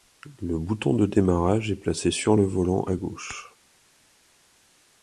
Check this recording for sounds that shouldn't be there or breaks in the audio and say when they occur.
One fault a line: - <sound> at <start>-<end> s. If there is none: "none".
none